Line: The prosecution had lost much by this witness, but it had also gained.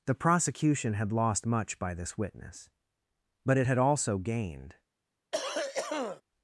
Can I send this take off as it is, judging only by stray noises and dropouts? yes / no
no